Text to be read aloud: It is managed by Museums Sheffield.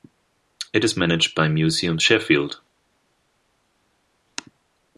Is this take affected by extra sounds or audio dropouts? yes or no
no